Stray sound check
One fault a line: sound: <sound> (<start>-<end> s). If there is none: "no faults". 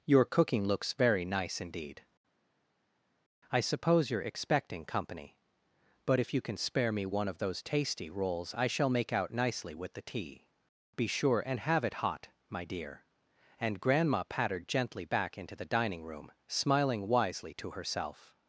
no faults